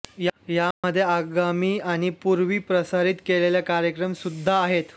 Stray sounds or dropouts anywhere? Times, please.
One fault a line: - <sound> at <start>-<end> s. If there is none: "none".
- dropout at 0.7-0.8 s